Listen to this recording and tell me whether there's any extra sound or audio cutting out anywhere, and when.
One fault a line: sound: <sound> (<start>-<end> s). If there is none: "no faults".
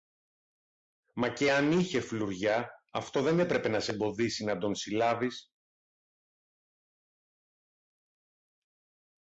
no faults